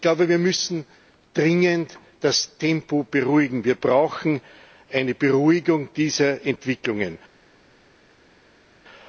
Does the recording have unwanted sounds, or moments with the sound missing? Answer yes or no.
no